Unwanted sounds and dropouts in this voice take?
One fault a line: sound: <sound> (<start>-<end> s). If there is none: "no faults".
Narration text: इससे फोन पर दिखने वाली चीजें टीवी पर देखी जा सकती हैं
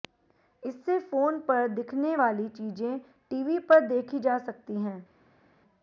no faults